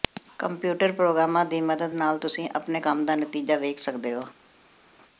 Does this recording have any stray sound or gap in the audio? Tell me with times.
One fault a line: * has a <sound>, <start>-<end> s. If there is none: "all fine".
all fine